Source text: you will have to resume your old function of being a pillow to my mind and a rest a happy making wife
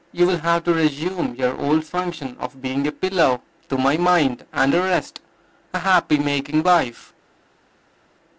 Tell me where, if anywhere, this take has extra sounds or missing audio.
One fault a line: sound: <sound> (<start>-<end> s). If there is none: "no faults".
no faults